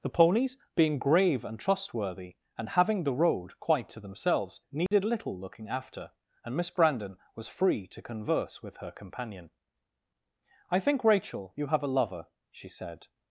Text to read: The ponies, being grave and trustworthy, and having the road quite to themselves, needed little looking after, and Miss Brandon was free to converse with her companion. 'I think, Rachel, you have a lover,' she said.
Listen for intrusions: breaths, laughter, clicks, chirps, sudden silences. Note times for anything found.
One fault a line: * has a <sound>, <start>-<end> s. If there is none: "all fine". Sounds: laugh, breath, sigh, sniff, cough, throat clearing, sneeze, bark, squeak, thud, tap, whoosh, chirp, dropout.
* has a dropout, 4.9-4.9 s